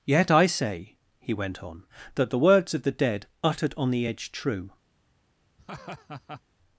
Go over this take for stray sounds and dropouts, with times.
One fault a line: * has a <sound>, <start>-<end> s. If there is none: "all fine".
* has a laugh, 5.6-6.4 s